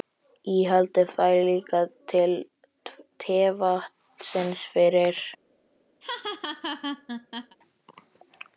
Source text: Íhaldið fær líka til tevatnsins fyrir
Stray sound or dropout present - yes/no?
yes